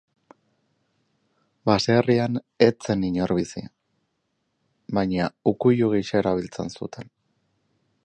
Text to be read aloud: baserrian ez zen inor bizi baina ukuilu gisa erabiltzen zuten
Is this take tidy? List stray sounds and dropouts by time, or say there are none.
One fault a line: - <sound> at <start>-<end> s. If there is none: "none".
none